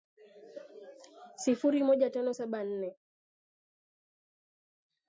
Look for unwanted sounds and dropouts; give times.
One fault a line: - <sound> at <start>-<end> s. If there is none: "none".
none